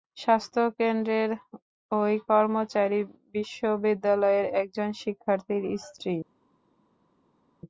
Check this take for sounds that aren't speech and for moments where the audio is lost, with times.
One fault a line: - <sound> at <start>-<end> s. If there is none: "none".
none